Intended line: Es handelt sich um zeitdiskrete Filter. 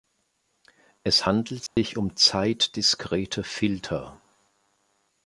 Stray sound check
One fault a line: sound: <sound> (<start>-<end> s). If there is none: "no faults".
sound: dropout (1.7-1.8 s)